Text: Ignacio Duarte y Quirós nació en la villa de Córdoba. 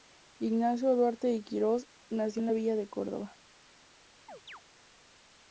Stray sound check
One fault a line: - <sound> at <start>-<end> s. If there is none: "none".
- chirp at 4.3-4.6 s